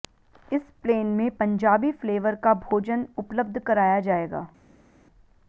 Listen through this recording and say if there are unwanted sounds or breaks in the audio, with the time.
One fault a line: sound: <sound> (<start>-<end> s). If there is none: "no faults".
no faults